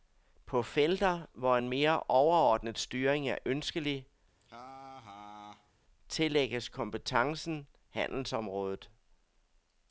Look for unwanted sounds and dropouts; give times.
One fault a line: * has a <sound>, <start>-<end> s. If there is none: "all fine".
* has a laugh, 4.4-5.7 s